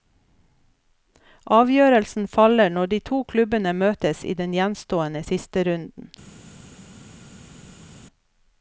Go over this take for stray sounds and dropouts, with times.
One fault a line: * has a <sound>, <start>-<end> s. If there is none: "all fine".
all fine